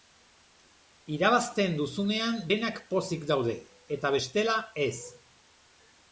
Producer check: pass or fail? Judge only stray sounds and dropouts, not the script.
pass